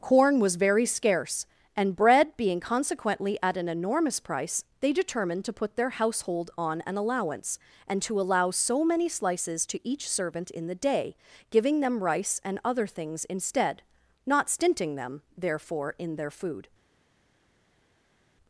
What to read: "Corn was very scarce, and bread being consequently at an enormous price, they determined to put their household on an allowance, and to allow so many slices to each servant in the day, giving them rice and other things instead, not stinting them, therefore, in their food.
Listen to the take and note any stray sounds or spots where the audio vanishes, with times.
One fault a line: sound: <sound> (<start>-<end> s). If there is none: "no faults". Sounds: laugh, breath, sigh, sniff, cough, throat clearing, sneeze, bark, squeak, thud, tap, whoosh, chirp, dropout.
no faults